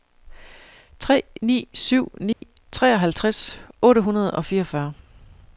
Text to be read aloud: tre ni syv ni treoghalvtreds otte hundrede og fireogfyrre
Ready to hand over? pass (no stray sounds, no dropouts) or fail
fail